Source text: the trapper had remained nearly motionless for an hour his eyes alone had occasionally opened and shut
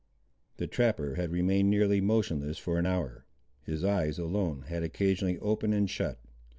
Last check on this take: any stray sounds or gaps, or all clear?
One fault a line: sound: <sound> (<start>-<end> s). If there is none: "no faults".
no faults